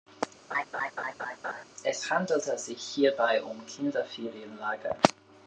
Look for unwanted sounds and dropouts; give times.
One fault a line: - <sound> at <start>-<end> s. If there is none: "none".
- laugh at 0.5-1.6 s